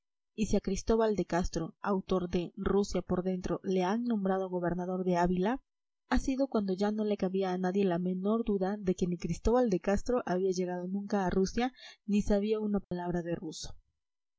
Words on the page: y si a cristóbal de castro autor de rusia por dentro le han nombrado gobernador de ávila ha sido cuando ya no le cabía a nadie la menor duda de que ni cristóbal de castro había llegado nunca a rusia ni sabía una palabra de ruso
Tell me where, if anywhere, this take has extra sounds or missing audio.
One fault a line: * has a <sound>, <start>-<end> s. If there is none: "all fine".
* has a dropout, 12.8-12.9 s